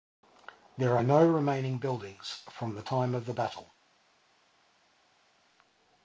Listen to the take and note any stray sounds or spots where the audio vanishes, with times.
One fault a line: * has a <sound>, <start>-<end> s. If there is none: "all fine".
all fine